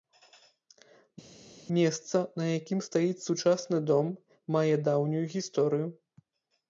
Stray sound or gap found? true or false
false